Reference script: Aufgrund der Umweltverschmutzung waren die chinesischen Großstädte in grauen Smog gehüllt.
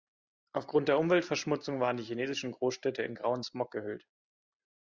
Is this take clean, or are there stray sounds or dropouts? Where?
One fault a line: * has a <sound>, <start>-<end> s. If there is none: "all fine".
all fine